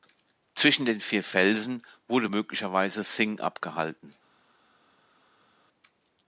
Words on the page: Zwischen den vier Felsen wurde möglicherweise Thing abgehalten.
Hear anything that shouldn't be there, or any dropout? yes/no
no